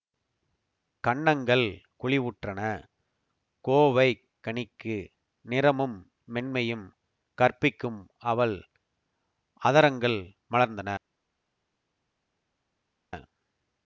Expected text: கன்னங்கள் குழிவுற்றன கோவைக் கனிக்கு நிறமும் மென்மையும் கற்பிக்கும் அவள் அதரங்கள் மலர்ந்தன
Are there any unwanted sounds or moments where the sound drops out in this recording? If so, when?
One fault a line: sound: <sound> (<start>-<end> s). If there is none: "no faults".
no faults